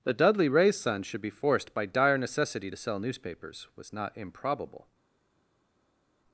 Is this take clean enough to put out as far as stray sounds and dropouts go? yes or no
yes